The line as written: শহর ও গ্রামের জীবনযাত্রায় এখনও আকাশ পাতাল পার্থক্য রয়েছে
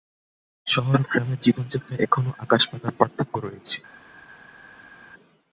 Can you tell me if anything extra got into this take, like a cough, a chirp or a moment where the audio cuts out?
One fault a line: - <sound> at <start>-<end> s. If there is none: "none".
none